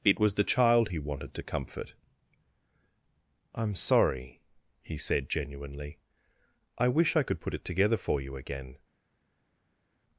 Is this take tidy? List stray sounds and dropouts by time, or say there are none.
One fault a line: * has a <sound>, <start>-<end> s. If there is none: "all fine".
all fine